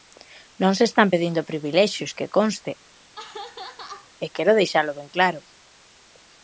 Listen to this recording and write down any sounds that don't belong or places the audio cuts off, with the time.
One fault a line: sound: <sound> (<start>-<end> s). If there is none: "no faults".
sound: laugh (2.9-4.1 s)